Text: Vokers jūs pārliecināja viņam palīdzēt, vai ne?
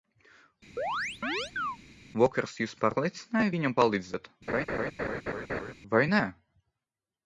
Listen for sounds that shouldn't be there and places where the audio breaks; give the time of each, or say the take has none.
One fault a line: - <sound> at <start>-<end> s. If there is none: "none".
- chirp at 0.8-1.8 s
- laugh at 4.5-5.7 s